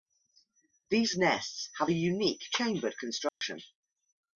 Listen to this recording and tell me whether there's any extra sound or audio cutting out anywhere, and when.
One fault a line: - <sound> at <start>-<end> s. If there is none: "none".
- dropout at 3.3-3.4 s